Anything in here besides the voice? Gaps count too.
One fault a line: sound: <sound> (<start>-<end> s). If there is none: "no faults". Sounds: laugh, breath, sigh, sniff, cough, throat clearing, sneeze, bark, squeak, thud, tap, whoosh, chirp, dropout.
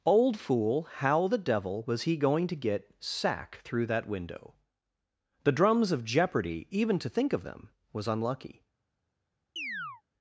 sound: chirp (9.6-10.0 s)